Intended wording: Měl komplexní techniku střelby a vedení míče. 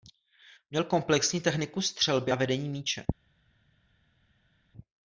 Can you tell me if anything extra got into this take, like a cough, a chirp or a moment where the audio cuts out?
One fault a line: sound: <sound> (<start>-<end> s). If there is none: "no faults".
no faults